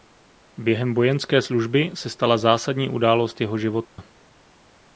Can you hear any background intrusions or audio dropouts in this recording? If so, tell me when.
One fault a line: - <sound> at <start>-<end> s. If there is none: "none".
- dropout at 3.8-4.0 s